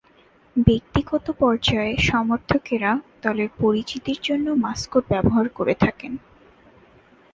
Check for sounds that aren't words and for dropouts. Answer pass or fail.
pass